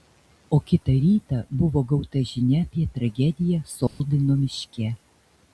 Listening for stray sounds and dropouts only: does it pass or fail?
fail